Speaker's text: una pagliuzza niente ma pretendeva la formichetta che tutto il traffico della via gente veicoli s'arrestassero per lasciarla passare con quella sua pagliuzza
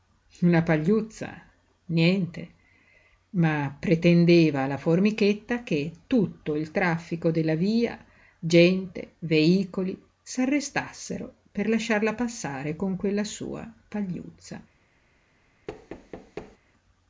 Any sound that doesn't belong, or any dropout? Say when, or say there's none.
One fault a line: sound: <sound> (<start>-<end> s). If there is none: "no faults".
sound: thud (15.7-16.6 s)